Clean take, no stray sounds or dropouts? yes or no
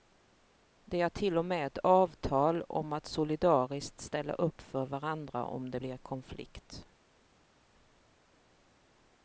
yes